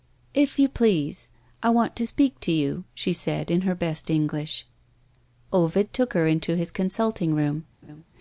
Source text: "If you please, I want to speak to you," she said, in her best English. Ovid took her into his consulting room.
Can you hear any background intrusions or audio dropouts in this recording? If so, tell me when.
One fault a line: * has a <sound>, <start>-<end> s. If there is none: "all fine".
* has a laugh, 7.8-8.0 s